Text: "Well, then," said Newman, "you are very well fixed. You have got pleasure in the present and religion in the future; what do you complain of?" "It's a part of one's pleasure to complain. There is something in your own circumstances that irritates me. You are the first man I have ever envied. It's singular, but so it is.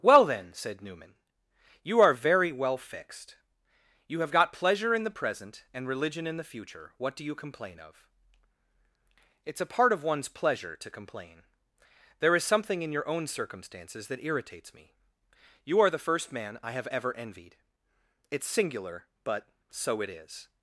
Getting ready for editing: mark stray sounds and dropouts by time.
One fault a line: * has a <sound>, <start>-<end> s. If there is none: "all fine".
all fine